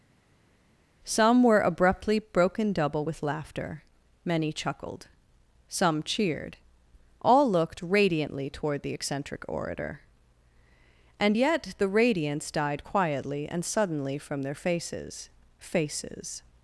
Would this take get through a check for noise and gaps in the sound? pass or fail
pass